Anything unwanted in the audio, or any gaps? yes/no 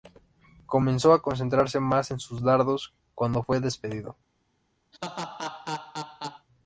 yes